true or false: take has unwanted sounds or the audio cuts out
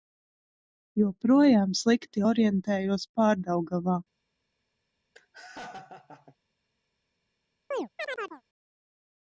true